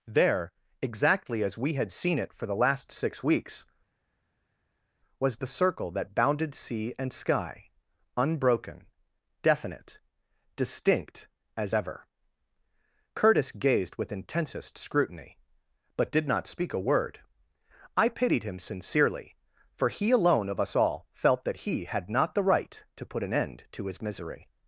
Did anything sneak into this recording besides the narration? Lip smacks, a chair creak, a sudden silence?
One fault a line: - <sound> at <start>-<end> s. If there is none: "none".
none